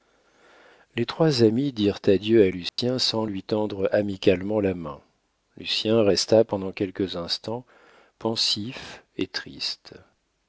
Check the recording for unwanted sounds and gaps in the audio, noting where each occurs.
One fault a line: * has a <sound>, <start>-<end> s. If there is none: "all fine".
* has a dropout, 2.7-2.8 s